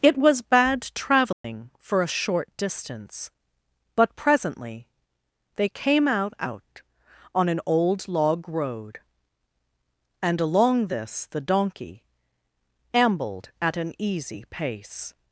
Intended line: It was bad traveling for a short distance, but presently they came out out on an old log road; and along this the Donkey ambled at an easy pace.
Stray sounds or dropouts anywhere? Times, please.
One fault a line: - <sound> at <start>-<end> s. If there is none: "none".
- dropout at 1.3-1.4 s